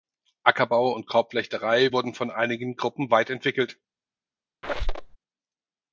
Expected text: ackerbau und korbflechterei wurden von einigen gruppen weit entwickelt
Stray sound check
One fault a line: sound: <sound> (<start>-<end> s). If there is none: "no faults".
sound: squeak (4.6-5.2 s)